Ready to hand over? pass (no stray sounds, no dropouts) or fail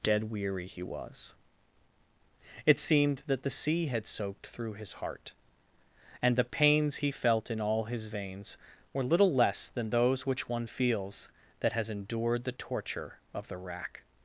pass